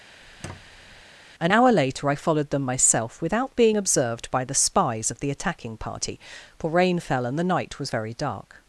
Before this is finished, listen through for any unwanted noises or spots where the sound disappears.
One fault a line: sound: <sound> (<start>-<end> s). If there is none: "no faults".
sound: squeak (0.2-1.0 s)